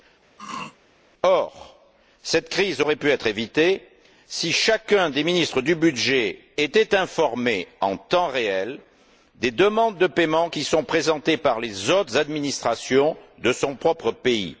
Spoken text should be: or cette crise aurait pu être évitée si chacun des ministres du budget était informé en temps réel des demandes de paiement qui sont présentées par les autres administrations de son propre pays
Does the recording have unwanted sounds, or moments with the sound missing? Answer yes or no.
yes